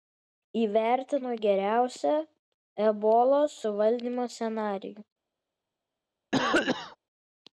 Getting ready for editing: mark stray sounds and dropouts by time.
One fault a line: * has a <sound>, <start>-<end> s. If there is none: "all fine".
* has a cough, 6.3-7.0 s